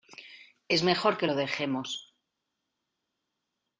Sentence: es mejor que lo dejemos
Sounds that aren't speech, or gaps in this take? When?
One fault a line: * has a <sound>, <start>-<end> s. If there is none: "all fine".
all fine